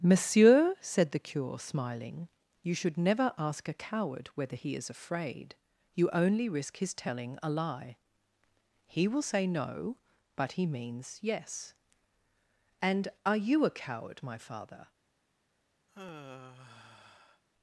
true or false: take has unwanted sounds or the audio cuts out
true